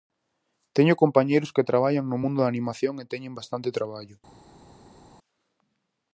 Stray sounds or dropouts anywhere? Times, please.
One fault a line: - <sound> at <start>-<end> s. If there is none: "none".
none